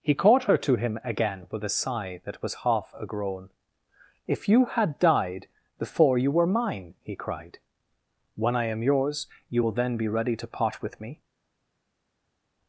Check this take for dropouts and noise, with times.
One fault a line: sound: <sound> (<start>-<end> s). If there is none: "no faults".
no faults